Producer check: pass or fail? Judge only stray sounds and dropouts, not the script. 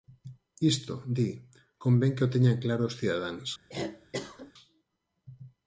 fail